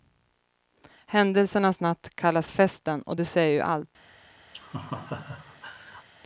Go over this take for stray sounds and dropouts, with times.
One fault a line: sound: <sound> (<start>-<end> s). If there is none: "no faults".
sound: laugh (4.5-6.1 s)